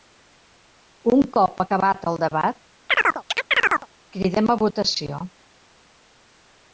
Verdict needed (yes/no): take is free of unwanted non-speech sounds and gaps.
no